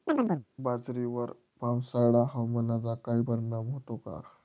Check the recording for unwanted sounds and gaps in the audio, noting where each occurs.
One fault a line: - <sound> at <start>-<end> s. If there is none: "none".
- chirp at 0.1-0.5 s